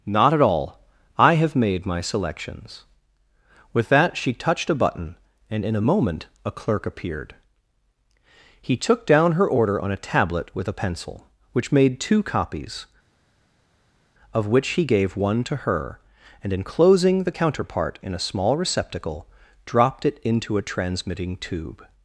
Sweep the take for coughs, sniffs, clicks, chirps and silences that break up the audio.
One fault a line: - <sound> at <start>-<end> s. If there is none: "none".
none